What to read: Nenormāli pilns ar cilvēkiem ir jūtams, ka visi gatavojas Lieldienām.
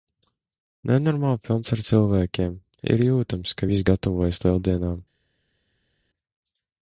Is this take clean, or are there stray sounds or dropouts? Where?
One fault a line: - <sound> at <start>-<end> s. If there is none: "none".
none